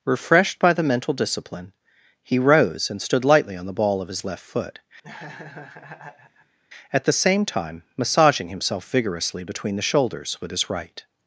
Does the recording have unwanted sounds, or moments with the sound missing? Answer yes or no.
yes